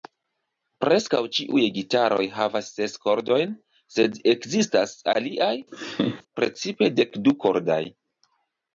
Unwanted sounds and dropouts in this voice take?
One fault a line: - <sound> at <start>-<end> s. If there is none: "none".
- laugh at 5.7-6.2 s